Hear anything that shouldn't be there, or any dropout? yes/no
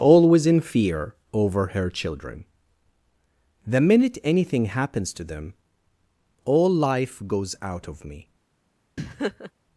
yes